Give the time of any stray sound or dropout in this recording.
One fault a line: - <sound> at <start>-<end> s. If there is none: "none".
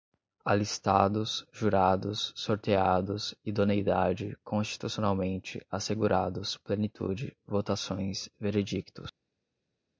none